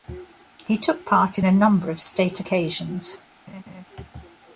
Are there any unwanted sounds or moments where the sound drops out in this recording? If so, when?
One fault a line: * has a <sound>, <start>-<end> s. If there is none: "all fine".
* has a laugh, 3.5-3.8 s